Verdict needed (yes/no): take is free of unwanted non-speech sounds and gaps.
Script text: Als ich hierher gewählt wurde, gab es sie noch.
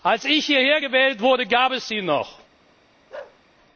no